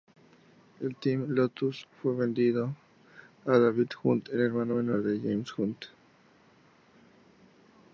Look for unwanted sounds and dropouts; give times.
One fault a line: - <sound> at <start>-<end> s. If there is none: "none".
none